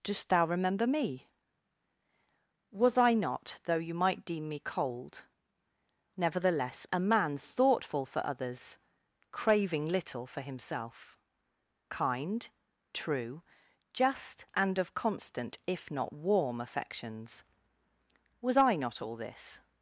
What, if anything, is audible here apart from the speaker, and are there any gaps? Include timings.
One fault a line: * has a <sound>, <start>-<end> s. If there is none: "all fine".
all fine